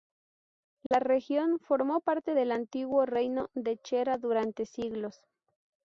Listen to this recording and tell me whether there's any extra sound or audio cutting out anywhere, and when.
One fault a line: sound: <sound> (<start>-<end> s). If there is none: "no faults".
sound: dropout (0.9-0.9 s)